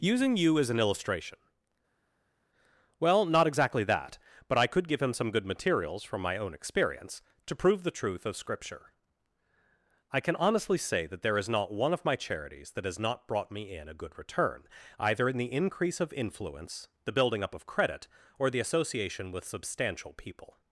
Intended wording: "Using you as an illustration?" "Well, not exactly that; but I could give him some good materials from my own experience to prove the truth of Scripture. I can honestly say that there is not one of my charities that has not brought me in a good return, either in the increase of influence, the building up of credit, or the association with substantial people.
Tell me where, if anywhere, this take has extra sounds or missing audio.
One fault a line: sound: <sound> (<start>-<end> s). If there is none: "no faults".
no faults